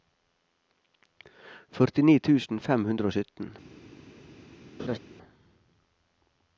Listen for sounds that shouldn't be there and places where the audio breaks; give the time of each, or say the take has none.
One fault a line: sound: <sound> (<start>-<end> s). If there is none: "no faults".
sound: laugh (4.8-5.0 s)